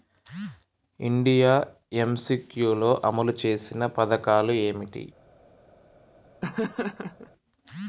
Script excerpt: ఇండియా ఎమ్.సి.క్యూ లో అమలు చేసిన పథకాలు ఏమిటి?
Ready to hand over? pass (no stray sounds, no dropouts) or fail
fail